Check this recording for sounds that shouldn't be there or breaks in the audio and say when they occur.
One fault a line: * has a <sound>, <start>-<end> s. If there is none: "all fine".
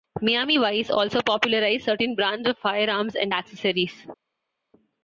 all fine